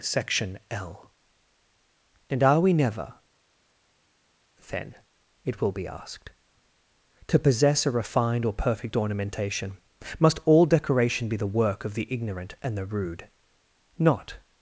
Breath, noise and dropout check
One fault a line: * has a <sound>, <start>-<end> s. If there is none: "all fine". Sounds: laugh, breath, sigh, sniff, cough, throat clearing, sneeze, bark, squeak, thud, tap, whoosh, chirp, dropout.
all fine